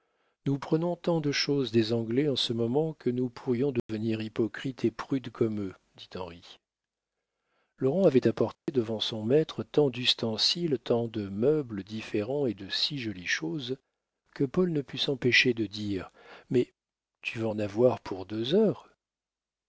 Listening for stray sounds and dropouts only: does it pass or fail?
fail